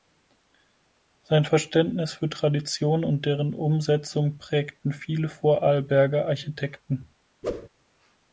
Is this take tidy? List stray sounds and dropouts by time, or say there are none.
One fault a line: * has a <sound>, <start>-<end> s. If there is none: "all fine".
* has a whoosh, 7.4-7.7 s